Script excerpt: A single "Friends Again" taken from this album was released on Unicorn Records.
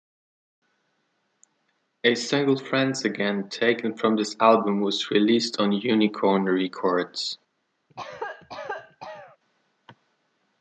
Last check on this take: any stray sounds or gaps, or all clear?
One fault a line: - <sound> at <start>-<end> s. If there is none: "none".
- cough at 7.9-9.4 s